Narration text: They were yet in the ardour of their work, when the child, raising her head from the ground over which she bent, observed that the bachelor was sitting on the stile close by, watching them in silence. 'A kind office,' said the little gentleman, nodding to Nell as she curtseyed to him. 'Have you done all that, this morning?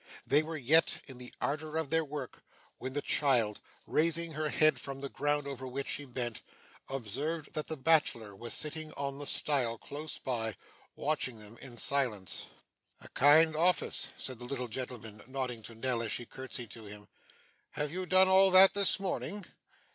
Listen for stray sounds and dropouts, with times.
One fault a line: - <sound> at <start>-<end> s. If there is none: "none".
none